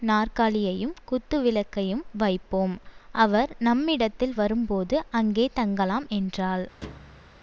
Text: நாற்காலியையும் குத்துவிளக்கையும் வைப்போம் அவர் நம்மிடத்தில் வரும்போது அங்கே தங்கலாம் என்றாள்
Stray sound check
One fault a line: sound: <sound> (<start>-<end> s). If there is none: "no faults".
sound: thud (6.8-7.4 s)